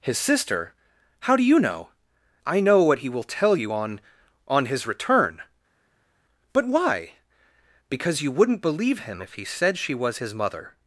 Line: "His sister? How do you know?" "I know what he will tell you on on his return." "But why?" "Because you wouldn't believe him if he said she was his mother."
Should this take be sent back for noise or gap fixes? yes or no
no